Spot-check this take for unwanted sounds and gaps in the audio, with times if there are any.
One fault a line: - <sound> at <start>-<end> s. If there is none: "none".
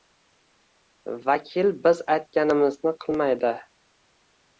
none